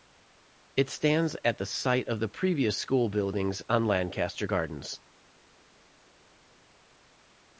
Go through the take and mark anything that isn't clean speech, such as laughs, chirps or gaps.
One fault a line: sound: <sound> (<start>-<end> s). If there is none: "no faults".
no faults